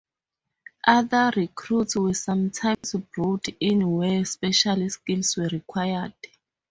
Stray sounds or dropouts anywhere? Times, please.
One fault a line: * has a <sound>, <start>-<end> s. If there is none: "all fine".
* has a dropout, 2.7-2.8 s